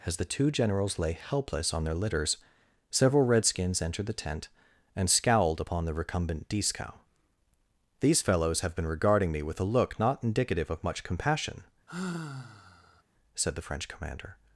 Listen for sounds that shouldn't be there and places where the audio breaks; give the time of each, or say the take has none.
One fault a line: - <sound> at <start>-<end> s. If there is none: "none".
- sigh at 11.9-13.0 s